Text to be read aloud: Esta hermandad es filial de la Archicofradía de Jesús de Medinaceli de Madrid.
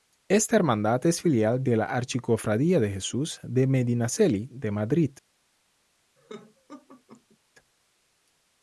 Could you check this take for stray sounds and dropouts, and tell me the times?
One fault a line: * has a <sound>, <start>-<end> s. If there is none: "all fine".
* has a laugh, 6.2-7.4 s